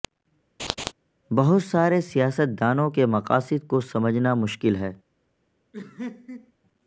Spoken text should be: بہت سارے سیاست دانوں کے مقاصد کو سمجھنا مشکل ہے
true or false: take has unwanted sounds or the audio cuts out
true